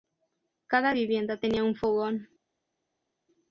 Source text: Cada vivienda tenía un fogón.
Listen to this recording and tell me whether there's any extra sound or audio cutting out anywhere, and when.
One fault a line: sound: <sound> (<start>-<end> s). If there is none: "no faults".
no faults